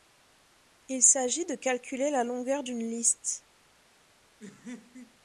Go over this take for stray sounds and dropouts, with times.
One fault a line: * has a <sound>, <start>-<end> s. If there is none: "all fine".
* has a laugh, 4.4-5.2 s